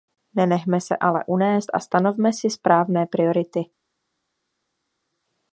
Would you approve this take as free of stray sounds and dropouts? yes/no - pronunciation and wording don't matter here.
yes